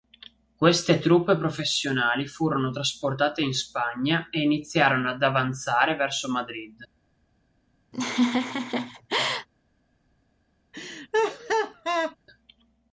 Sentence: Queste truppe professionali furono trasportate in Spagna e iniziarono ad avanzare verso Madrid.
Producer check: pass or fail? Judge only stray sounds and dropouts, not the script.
fail